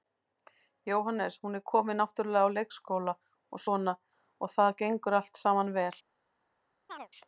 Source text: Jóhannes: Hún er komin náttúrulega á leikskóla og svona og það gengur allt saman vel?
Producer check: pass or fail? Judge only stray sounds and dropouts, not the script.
fail